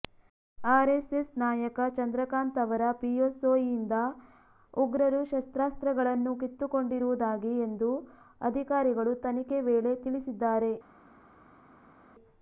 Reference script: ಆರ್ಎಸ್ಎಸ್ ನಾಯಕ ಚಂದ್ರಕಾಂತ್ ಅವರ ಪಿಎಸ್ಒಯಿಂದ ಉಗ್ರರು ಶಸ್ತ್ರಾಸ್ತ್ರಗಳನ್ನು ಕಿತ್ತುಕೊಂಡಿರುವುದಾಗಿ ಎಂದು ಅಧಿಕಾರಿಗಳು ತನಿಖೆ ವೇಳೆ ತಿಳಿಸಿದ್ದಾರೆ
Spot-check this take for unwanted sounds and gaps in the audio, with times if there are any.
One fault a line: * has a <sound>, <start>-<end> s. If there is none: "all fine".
all fine